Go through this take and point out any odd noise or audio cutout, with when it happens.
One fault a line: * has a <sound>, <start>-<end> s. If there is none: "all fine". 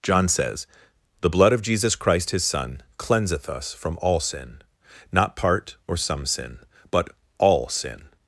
all fine